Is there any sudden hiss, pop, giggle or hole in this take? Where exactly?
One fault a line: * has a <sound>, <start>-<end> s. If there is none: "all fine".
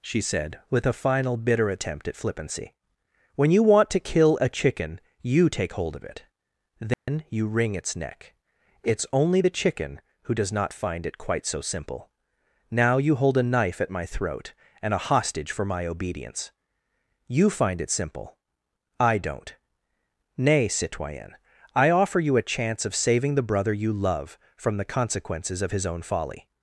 * has a dropout, 6.9-7.1 s